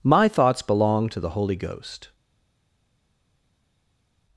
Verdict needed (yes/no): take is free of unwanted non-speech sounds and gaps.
yes